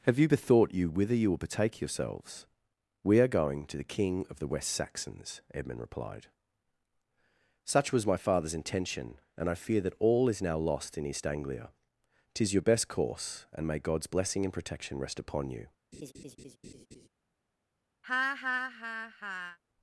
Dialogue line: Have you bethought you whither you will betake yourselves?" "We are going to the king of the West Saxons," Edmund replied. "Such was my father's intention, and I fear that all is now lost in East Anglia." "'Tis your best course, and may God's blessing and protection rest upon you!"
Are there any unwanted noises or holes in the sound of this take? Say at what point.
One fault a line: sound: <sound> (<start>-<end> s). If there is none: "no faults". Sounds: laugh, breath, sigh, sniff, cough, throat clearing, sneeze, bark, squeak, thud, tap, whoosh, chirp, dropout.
sound: laugh (15.9-17.1 s)
sound: laugh (18.0-19.6 s)